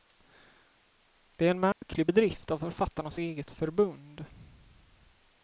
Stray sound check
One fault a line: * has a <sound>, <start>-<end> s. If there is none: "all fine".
* has a dropout, 1.7-1.8 s